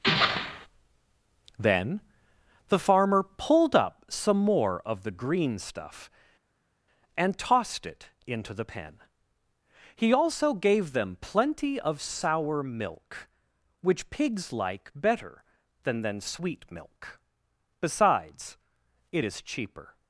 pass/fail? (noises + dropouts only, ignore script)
pass